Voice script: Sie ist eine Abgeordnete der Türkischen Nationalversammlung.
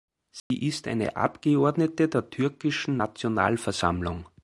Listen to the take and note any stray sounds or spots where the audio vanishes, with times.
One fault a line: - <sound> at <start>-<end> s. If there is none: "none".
- dropout at 0.4-0.5 s